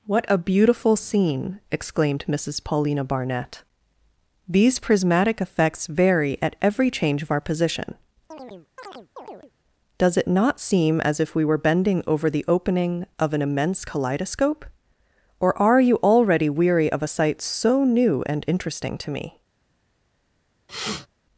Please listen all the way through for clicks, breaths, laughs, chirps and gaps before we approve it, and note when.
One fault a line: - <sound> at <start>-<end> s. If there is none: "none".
- chirp at 8.3-9.5 s
- sniff at 20.7-21.1 s